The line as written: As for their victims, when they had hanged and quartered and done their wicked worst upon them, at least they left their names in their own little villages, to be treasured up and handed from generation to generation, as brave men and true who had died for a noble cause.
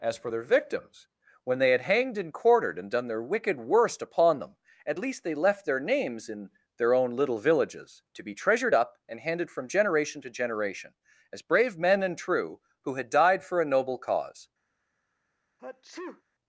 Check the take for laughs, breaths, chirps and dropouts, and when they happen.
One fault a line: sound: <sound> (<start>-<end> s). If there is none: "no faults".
sound: sneeze (15.6-16.2 s)